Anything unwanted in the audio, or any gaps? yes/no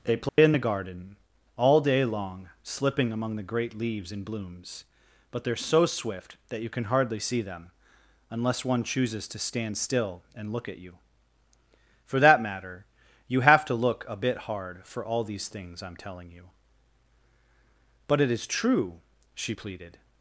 yes